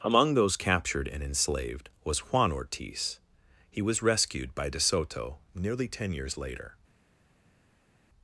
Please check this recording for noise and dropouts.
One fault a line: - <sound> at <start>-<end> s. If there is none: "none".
none